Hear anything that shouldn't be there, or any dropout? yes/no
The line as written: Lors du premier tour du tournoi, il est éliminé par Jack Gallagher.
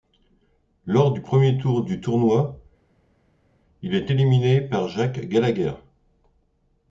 no